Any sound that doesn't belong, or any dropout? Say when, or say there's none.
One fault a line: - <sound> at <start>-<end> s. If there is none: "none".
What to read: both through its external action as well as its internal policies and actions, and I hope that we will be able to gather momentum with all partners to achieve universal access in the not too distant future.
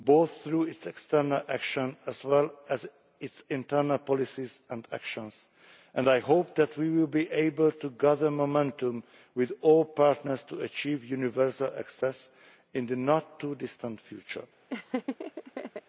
- laugh at 14.7-15.8 s